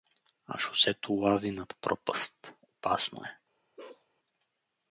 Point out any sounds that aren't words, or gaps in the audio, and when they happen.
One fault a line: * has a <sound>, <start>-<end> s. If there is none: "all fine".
* has a bark, 3.8-4.1 s